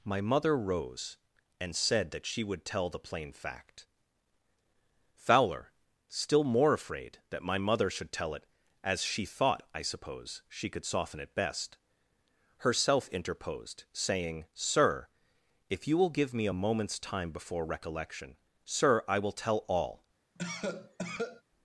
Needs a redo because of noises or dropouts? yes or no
yes